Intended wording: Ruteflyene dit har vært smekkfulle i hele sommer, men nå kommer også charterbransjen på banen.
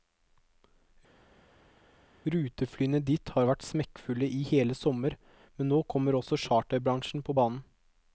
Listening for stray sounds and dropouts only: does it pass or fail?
pass